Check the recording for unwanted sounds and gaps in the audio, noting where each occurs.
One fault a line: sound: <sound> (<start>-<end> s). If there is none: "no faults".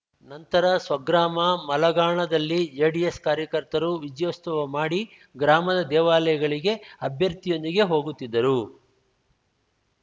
no faults